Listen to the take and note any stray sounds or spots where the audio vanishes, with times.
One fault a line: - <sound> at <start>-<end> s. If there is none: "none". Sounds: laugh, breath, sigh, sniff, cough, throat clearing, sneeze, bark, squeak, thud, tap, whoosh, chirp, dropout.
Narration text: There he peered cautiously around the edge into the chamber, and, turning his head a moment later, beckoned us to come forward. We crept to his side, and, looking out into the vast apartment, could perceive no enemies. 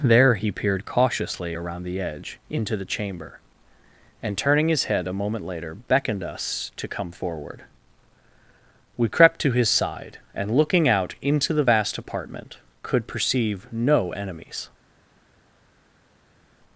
none